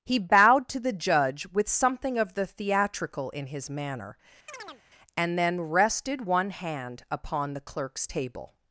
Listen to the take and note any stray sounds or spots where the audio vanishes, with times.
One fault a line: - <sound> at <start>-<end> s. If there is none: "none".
- chirp at 4.5-4.8 s